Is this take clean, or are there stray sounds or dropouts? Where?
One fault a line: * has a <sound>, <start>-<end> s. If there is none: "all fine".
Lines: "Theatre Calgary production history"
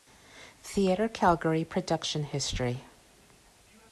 all fine